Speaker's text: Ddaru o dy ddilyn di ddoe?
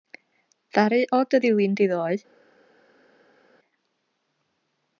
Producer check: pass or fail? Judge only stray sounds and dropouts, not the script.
pass